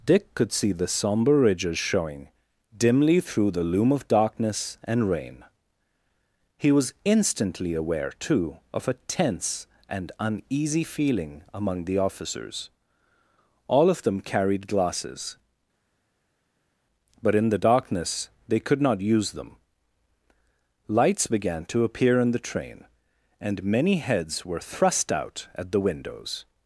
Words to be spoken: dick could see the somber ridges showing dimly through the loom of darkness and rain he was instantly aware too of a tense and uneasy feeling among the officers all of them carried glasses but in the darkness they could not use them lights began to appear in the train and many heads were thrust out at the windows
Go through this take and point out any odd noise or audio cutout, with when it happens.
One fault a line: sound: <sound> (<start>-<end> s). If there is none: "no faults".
no faults